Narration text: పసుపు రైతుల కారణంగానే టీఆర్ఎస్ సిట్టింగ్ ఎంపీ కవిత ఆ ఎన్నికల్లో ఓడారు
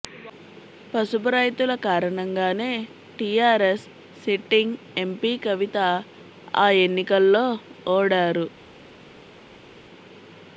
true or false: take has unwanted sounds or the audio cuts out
false